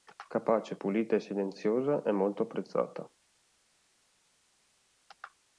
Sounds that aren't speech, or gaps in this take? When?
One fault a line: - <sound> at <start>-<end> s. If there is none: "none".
none